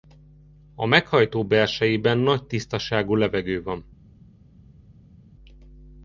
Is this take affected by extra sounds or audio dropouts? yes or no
no